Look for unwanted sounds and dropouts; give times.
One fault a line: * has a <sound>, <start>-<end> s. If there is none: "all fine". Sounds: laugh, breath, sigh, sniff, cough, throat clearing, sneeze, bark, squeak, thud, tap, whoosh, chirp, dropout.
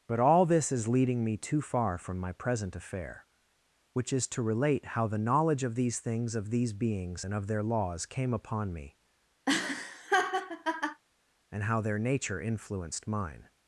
* has a laugh, 9.5-11.0 s